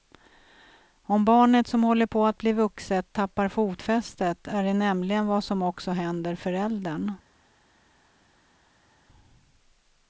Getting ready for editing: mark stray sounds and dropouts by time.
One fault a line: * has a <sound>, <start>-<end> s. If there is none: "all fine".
all fine